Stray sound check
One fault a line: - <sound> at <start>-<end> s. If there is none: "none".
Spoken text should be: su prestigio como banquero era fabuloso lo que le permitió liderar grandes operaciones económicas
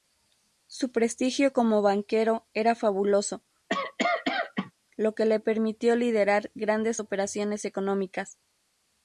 - cough at 3.7-4.7 s